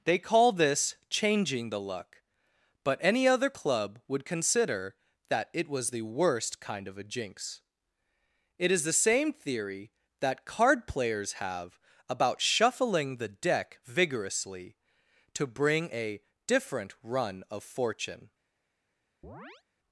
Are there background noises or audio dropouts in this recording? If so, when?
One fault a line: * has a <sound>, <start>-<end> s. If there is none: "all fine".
* has a chirp, 19.2-19.6 s